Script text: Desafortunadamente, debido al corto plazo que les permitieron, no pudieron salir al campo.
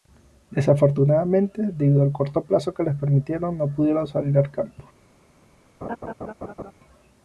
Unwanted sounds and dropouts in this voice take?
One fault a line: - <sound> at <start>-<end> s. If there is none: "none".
- laugh at 5.8-6.7 s